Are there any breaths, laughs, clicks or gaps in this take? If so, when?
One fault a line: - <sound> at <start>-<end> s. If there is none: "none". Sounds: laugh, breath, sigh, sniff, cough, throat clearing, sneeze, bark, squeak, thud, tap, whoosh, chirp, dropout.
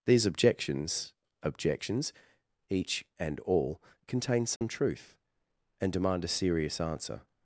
- dropout at 4.6-4.6 s